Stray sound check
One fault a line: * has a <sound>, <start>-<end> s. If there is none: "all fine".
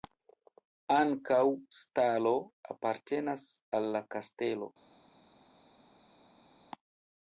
all fine